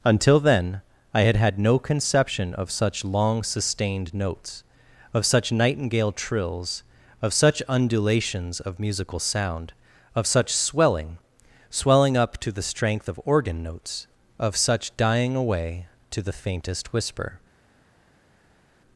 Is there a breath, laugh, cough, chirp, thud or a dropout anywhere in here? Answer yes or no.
no